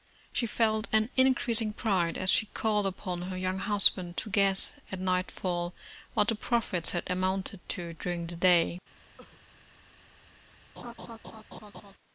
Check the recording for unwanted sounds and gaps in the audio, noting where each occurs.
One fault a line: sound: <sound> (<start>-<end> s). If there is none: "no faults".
sound: cough (9.2-9.4 s)
sound: laugh (10.8-11.9 s)